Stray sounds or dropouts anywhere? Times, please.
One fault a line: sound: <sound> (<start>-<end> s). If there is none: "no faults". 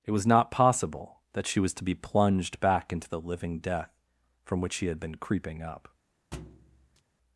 sound: thud (6.3-7.0 s)